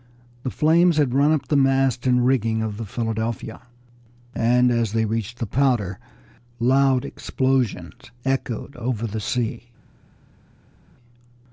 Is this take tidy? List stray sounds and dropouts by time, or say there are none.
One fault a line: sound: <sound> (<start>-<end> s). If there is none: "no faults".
no faults